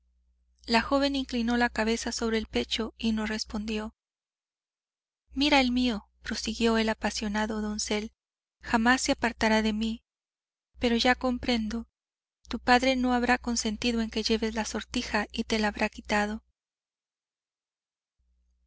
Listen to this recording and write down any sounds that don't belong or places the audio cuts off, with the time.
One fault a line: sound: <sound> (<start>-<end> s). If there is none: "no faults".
no faults